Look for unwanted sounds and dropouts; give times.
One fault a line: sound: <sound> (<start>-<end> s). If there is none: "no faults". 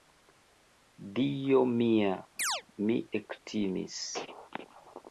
sound: chirp (2.4-2.6 s)